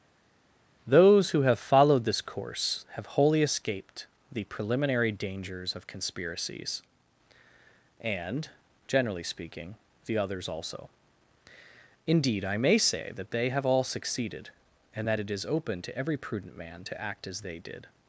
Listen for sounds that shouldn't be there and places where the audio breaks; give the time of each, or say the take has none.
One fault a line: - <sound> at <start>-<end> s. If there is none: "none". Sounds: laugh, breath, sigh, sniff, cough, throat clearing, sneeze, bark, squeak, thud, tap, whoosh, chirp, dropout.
none